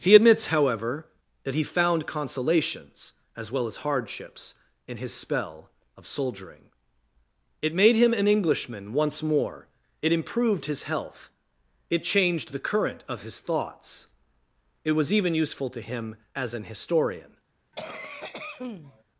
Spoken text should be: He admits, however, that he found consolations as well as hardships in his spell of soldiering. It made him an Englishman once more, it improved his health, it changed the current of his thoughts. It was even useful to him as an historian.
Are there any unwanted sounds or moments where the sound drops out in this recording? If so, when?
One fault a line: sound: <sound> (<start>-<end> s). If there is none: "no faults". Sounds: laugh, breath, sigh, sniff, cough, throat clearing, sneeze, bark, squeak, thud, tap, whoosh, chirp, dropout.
sound: cough (17.7-19.0 s)